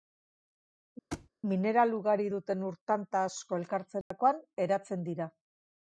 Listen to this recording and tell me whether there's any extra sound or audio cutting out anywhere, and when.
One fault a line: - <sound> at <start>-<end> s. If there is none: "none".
- thud at 1.1-1.3 s
- dropout at 4.0-4.1 s